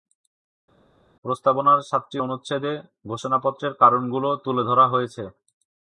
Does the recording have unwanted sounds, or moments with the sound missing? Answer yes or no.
no